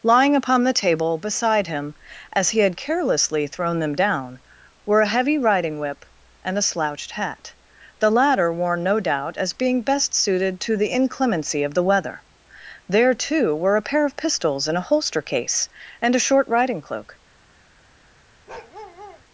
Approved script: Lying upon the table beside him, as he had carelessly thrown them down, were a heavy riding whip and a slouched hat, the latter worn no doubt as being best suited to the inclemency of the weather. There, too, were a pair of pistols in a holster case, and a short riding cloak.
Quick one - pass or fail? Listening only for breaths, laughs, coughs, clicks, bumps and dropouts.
fail